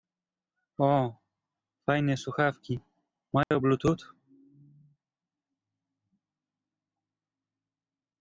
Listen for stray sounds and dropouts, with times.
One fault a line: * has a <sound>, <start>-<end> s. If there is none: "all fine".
* has a dropout, 3.4-3.5 s